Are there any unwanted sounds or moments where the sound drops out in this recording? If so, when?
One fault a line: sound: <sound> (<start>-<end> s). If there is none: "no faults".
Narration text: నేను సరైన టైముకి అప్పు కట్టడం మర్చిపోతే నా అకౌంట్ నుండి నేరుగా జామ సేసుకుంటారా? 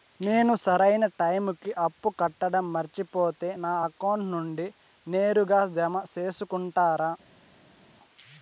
no faults